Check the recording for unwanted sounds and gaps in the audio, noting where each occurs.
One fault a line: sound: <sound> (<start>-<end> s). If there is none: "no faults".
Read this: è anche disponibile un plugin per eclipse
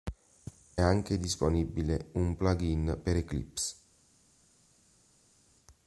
no faults